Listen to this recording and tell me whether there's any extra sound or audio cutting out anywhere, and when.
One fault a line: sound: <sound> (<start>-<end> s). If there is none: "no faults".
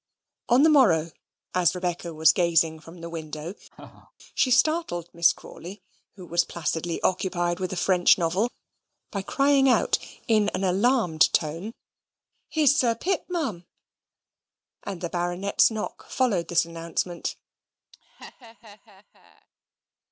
sound: laugh (3.7-4.1 s)
sound: laugh (17.9-19.5 s)